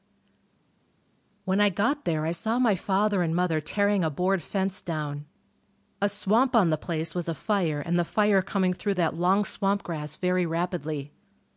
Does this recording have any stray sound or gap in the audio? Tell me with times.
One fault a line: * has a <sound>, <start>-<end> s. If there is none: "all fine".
all fine